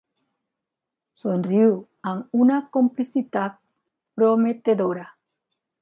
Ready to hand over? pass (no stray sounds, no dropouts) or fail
pass